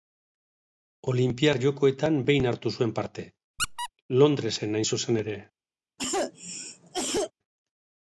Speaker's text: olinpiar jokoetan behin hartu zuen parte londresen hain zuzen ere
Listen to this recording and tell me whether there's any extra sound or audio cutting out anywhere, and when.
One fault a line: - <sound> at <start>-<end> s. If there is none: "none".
- squeak at 3.6-3.9 s
- cough at 6.0-7.3 s